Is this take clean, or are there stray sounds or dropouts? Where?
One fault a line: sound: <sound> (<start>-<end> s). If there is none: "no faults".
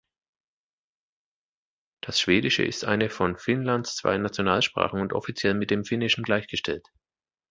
no faults